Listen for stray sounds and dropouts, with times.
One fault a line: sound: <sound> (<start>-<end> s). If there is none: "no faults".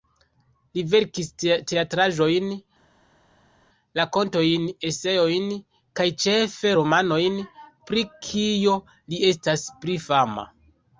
no faults